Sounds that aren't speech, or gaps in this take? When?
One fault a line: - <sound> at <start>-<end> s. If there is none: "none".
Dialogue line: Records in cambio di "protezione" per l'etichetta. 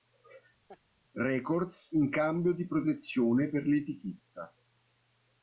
- laugh at 0.7-0.8 s